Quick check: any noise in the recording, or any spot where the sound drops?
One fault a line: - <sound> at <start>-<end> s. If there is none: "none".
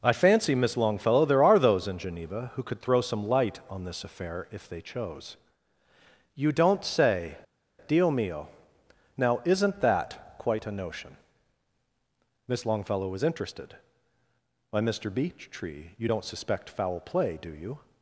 none